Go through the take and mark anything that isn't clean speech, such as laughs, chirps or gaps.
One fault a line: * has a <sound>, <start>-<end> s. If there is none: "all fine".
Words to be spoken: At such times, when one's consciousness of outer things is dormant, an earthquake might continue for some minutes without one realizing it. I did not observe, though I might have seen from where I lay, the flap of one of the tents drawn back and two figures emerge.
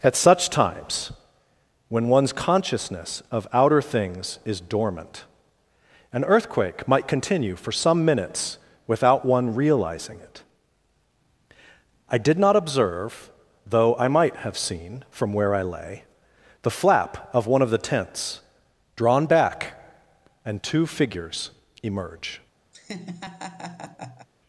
* has a laugh, 22.7-24.3 s